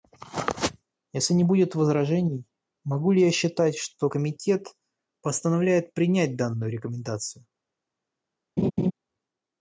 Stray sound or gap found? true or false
true